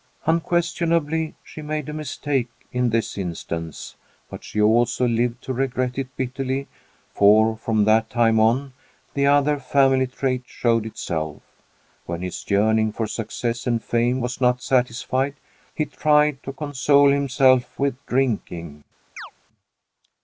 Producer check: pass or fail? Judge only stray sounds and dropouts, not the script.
fail